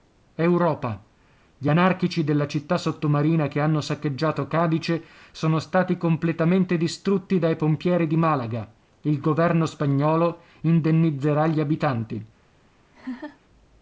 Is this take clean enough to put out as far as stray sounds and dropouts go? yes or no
no